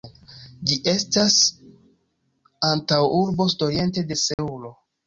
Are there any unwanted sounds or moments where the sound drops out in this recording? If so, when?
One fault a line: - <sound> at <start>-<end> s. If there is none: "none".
- dropout at 4.3-4.4 s